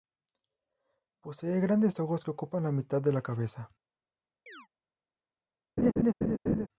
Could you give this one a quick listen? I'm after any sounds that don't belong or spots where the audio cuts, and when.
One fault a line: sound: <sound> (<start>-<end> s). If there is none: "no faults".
sound: chirp (4.5-4.7 s)
sound: laugh (5.8-6.7 s)